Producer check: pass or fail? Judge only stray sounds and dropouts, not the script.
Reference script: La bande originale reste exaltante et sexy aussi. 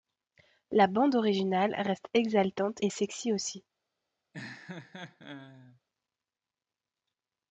fail